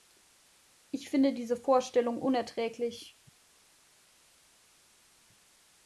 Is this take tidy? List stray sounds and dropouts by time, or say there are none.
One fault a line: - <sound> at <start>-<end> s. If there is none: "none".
none